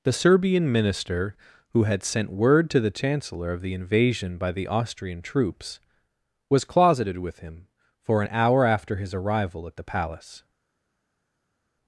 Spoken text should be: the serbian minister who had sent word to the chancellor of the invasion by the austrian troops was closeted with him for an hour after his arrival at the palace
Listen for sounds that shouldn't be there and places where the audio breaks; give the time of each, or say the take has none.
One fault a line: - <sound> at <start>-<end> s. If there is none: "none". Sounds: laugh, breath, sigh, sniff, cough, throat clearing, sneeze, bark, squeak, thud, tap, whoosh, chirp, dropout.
none